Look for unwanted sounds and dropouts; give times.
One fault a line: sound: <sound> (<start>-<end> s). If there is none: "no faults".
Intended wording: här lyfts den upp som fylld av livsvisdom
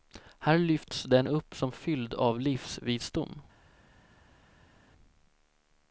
no faults